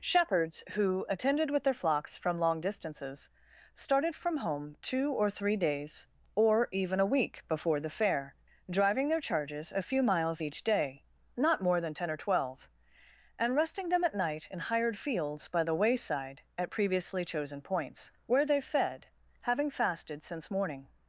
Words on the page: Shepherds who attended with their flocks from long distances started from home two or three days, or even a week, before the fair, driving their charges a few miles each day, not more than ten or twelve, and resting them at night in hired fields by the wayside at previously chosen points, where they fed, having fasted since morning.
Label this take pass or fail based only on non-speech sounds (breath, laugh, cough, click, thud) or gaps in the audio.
pass